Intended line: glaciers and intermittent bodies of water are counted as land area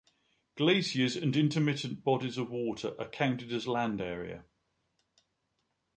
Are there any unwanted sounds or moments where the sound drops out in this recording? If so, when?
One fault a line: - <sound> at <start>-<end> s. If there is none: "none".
none